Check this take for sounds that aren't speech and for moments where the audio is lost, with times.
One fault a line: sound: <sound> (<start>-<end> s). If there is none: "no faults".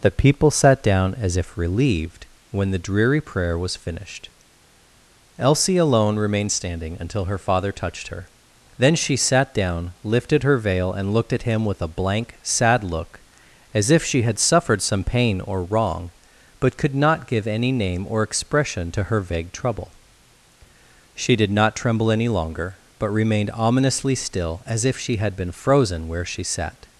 no faults